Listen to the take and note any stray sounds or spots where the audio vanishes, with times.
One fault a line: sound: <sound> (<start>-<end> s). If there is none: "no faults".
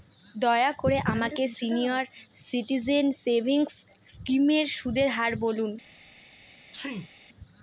sound: sneeze (6.7-7.1 s)